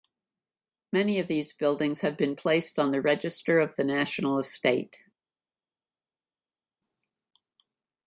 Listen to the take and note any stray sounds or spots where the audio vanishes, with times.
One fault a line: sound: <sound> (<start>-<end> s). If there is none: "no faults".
no faults